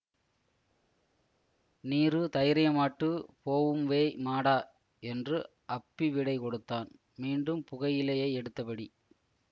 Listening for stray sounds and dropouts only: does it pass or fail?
pass